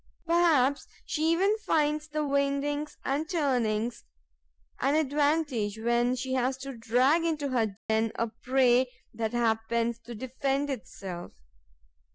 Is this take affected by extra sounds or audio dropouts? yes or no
yes